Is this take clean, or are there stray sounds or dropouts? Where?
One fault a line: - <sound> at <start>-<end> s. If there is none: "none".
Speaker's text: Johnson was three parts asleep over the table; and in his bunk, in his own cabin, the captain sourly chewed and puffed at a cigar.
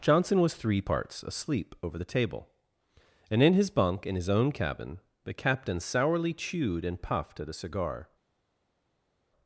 none